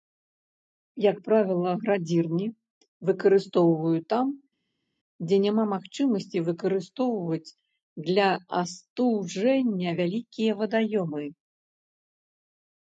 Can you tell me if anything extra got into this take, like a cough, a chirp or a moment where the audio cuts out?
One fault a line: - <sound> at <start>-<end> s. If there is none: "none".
none